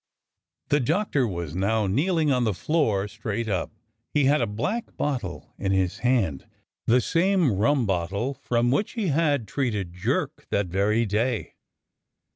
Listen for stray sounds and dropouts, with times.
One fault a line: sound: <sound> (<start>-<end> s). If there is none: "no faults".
no faults